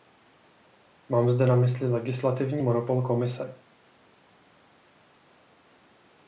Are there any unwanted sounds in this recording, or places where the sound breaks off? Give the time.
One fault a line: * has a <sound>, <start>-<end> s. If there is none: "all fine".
all fine